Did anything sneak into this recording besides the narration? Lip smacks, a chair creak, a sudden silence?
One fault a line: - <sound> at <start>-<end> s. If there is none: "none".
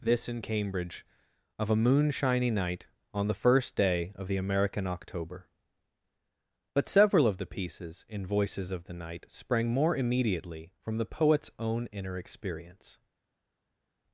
none